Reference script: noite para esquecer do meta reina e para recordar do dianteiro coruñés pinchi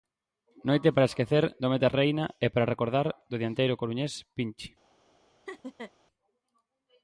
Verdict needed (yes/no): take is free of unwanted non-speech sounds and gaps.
no